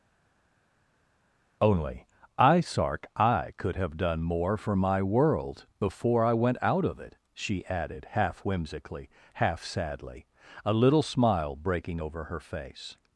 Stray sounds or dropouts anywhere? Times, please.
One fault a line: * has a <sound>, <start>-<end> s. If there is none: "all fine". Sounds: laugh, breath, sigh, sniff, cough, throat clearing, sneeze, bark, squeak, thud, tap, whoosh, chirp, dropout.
all fine